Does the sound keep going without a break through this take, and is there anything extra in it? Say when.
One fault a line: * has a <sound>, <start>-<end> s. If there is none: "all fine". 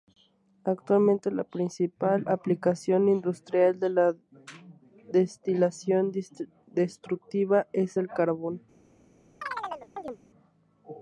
* has a chirp, 9.4-10.2 s